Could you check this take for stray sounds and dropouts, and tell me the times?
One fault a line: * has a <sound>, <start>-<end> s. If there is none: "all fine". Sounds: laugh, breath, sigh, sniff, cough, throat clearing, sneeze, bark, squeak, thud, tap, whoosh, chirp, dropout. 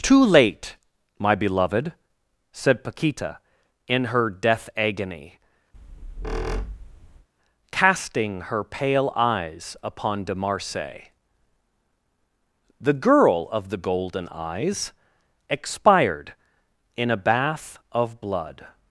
* has a squeak, 5.7-7.3 s